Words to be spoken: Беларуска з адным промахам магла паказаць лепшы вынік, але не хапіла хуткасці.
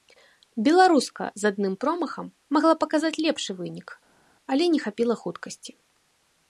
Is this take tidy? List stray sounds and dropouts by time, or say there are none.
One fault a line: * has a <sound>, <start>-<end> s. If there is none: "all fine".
all fine